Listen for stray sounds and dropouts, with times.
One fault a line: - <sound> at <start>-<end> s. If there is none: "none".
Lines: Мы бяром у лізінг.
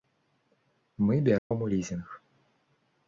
- dropout at 1.4-1.5 s